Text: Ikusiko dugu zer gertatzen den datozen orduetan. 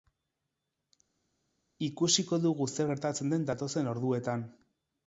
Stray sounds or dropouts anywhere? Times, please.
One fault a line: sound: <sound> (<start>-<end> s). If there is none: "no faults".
no faults